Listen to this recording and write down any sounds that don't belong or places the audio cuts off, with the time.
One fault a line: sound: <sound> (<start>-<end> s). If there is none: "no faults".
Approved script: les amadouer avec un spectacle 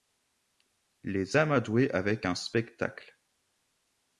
no faults